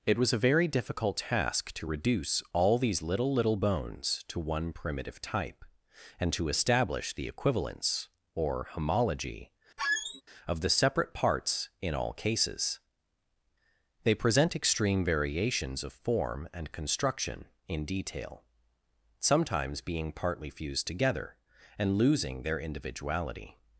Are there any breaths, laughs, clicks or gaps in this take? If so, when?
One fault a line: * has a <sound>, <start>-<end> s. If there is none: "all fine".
* has a squeak, 9.8-10.2 s